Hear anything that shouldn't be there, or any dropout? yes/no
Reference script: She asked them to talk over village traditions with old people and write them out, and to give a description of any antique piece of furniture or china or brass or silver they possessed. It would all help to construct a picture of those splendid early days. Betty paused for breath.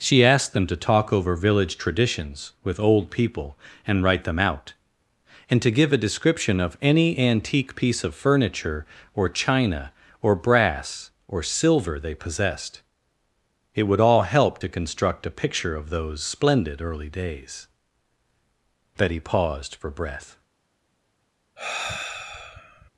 yes